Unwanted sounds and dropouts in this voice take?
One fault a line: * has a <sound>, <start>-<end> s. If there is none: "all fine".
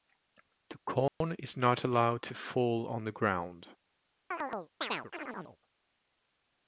* has a dropout, 1.1-1.2 s
* has a chirp, 4.3-5.6 s